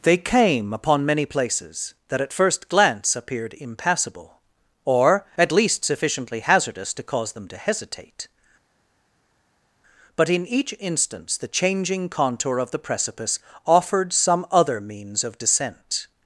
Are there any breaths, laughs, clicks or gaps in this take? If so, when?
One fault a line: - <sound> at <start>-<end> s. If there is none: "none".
none